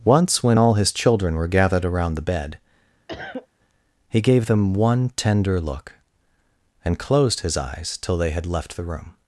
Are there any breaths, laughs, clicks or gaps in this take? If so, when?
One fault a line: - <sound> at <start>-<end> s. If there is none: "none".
- cough at 3.1-3.5 s